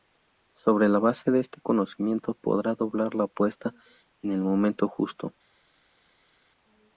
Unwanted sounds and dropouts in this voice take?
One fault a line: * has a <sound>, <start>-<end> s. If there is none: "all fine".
all fine